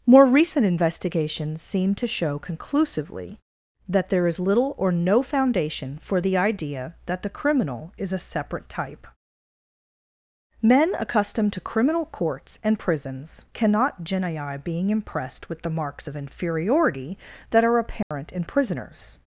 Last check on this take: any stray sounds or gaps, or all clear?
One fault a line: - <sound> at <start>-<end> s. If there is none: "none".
- dropout at 18.0-18.1 s